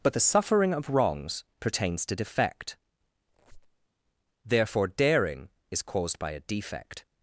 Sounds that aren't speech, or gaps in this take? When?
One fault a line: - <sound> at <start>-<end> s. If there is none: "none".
- squeak at 3.3-3.9 s